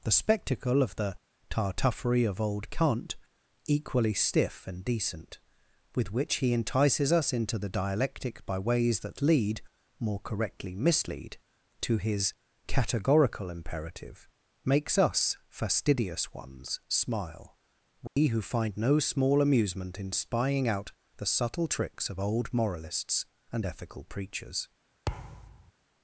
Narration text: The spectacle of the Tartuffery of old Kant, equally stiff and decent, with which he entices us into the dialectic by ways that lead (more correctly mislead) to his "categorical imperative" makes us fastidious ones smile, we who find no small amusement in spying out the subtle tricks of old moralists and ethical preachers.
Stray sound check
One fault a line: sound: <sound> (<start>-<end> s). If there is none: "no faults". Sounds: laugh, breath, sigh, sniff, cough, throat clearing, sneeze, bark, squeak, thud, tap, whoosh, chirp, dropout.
sound: dropout (18.1-18.2 s)
sound: thud (25.1-25.7 s)